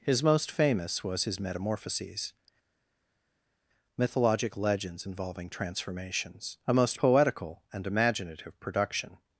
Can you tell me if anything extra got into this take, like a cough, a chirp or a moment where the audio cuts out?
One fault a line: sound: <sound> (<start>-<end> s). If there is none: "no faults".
no faults